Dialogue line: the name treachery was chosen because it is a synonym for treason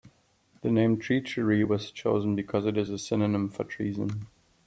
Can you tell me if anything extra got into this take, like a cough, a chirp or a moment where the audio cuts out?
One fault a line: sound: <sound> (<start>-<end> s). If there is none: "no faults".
no faults